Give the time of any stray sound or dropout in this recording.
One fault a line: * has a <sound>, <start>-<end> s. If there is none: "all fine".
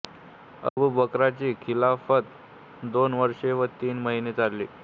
* has a dropout, 0.7-0.8 s